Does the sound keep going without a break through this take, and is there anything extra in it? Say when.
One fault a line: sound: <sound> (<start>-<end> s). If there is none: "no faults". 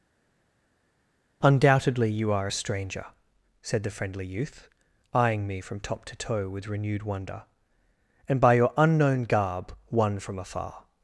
no faults